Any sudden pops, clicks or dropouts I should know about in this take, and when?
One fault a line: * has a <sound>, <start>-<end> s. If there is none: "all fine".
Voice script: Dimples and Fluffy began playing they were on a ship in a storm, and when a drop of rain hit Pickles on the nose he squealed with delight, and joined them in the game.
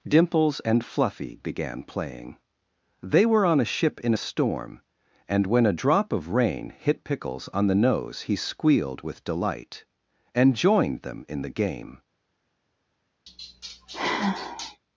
* has a sigh, 13.3-14.8 s